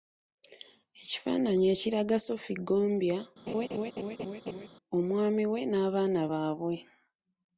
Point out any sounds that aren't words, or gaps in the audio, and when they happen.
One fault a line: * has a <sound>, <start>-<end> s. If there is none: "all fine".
* has a laugh, 3.5-4.7 s